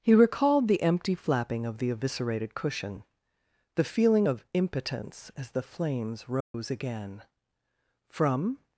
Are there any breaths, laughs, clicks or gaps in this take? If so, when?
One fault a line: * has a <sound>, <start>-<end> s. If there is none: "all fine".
* has a dropout, 6.4-6.5 s